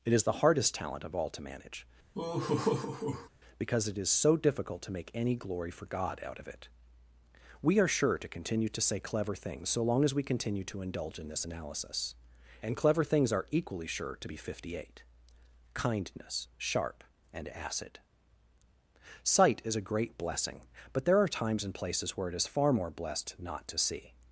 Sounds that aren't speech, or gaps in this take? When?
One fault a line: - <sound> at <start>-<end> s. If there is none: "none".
- laugh at 2.1-3.3 s